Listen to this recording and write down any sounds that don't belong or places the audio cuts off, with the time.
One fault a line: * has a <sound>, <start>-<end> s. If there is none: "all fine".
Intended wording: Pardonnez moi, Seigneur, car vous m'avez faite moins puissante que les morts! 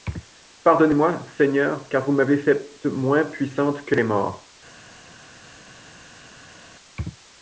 all fine